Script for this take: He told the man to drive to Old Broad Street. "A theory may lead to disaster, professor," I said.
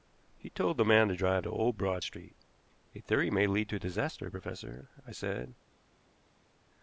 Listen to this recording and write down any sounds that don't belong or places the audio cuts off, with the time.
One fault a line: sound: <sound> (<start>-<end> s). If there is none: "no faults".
no faults